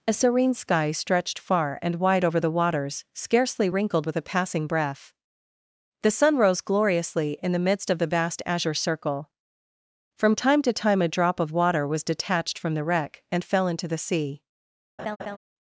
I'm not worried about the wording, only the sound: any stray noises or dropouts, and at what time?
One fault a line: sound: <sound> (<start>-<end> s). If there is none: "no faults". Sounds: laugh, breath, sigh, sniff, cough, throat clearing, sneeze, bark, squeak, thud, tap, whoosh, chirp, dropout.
sound: laugh (15.0-15.4 s)